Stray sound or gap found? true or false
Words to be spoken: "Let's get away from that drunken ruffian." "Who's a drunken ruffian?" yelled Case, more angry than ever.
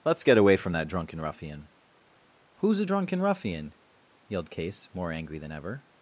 false